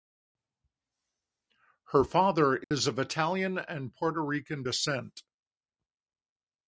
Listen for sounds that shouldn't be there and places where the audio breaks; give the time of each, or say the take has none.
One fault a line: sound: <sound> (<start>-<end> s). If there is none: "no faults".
sound: dropout (2.6-2.7 s)